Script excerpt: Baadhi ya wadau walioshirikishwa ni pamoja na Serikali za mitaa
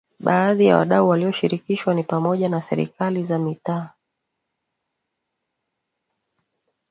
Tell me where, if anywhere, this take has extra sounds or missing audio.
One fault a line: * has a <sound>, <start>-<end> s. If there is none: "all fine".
all fine